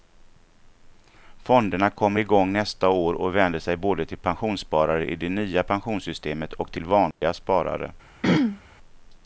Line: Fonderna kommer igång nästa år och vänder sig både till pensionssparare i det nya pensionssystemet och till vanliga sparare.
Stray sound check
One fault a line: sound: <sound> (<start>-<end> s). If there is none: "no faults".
sound: dropout (7.1-7.2 s)
sound: throat clearing (8.2-8.6 s)